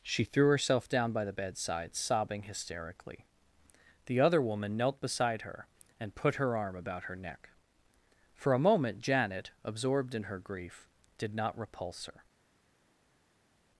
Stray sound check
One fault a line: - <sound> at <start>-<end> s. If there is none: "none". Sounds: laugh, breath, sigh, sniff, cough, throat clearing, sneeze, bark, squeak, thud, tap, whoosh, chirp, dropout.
none